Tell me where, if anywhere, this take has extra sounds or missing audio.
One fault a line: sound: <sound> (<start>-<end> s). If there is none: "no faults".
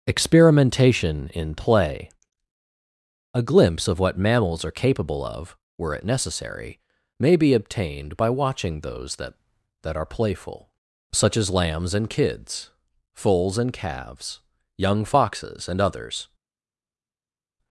no faults